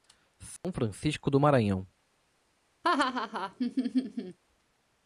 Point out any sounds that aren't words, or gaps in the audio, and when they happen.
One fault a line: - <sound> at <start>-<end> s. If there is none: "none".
- dropout at 0.6-0.6 s
- laugh at 2.8-4.4 s